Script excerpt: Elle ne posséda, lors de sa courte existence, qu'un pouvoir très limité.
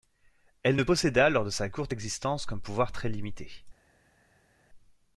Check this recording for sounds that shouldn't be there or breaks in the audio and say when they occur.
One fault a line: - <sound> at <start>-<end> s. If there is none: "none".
none